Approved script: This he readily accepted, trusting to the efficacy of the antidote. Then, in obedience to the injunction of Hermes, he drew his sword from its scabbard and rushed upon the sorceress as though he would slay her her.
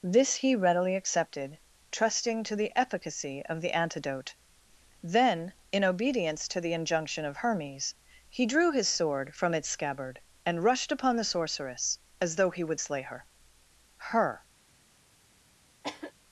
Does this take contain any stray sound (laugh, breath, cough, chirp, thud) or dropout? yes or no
yes